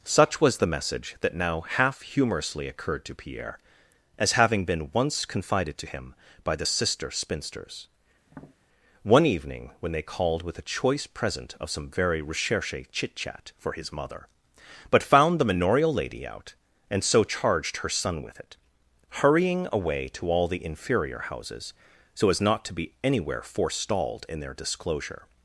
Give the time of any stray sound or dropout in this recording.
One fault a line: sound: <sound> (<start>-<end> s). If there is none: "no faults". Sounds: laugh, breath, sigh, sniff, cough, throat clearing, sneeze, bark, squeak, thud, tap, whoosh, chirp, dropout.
sound: tap (8.3-8.6 s)